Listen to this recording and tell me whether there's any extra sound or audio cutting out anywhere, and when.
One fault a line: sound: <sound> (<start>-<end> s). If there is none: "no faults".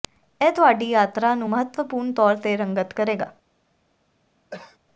sound: cough (4.5-4.8 s)